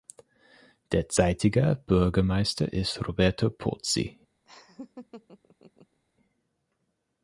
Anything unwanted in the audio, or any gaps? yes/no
yes